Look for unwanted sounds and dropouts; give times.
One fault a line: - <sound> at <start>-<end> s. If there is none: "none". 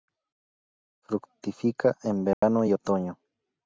- dropout at 2.3-2.4 s